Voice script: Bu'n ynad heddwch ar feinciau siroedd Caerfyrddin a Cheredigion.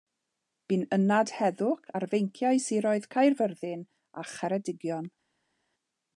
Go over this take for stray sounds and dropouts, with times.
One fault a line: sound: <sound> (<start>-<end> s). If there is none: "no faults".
no faults